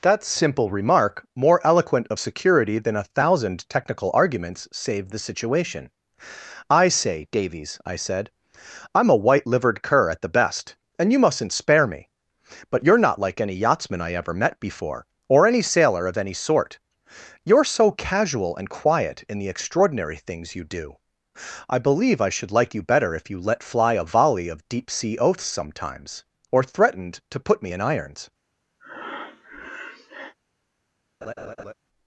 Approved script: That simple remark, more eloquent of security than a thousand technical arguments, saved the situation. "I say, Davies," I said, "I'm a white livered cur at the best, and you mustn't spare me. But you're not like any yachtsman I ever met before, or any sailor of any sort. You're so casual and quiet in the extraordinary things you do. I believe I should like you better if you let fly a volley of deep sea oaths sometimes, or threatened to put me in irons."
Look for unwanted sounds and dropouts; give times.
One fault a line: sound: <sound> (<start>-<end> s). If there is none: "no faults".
sound: breath (28.8-30.3 s)
sound: laugh (31.2-31.7 s)